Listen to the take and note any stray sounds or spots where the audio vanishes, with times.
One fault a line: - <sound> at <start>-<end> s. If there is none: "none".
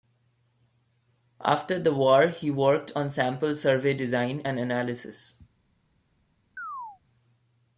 - chirp at 6.6-7.0 s